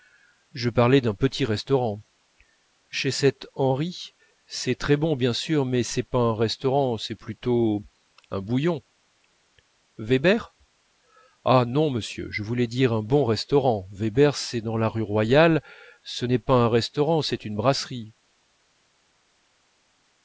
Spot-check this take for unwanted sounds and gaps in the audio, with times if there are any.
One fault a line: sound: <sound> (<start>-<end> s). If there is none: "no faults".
no faults